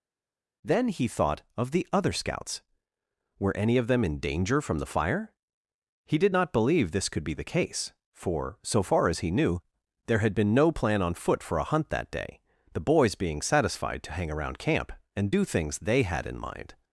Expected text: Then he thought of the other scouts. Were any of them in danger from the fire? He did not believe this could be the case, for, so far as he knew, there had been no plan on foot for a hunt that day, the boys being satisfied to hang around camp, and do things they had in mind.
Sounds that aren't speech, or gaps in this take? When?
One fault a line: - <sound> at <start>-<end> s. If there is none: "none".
none